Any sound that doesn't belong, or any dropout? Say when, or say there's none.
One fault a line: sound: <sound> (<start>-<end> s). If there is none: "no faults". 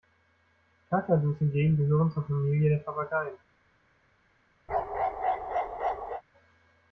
sound: bark (4.7-6.2 s)